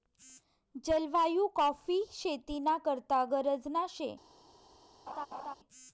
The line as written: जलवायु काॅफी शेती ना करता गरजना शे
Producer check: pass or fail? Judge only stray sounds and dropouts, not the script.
fail